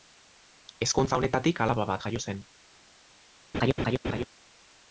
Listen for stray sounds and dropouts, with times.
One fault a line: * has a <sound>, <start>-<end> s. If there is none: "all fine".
* has a laugh, 3.5-4.2 s